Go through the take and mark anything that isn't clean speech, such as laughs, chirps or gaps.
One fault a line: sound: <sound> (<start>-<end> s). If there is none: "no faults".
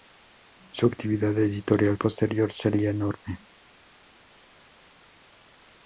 no faults